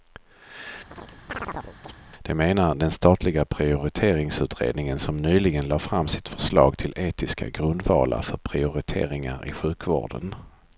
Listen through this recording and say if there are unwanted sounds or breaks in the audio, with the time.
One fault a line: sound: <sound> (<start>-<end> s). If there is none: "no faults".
sound: chirp (0.9-2.0 s)